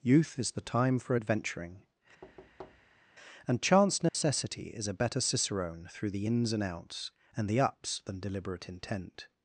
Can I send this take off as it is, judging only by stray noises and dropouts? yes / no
no